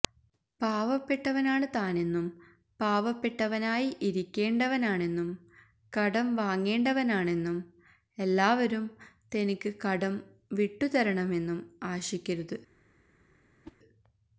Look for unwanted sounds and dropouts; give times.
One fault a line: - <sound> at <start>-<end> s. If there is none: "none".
- whoosh at 13.6-13.8 s